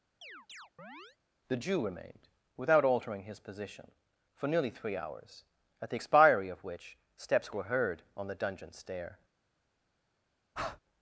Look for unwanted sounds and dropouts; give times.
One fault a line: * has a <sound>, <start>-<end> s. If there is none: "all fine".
* has a chirp, 0.2-1.2 s
* has a breath, 10.5-10.8 s